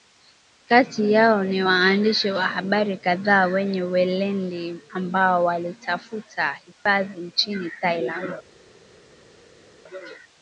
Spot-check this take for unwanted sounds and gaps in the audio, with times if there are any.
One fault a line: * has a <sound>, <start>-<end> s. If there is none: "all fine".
all fine